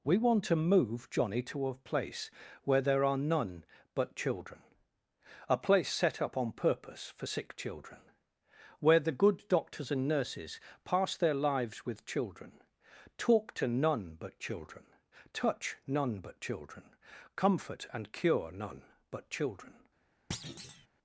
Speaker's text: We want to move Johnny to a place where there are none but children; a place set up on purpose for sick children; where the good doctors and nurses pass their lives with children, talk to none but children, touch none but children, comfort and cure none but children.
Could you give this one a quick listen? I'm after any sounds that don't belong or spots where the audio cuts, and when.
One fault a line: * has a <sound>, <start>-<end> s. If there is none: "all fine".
* has a thud, 20.3-20.9 s